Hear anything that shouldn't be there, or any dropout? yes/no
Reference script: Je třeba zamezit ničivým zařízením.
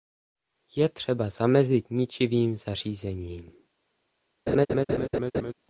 yes